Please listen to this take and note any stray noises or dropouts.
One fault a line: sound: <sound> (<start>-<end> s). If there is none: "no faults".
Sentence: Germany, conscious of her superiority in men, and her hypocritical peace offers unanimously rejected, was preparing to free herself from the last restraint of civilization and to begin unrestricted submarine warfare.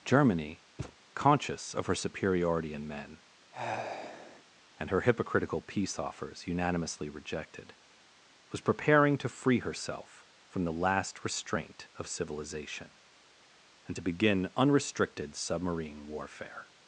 sound: thud (0.8-1.0 s)
sound: sigh (3.5-4.4 s)